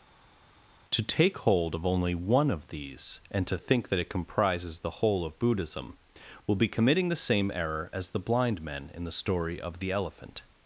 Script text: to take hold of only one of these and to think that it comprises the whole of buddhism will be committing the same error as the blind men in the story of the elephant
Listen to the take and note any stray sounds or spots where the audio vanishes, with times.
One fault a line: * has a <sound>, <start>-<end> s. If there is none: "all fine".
all fine